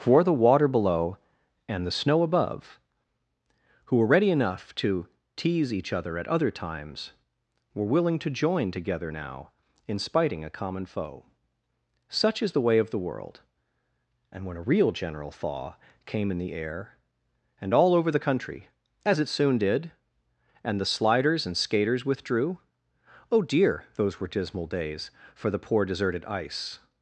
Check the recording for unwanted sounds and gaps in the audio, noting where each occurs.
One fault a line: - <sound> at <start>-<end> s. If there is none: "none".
none